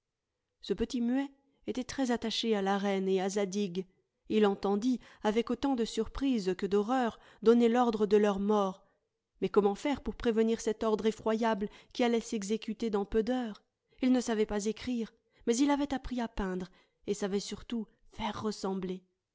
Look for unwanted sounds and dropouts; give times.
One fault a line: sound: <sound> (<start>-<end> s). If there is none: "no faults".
no faults